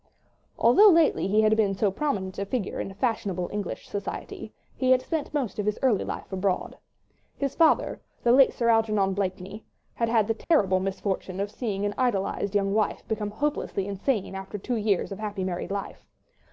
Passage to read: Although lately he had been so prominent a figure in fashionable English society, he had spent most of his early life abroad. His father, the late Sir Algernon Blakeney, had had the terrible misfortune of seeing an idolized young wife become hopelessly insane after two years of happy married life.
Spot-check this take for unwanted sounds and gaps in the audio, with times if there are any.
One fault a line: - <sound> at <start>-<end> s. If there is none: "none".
- dropout at 10.4-10.5 s